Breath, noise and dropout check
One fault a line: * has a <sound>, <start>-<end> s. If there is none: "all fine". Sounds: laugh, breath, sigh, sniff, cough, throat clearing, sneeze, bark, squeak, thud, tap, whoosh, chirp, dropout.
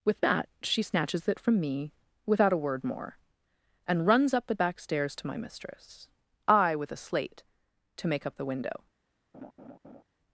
* has a laugh, 9.3-10.0 s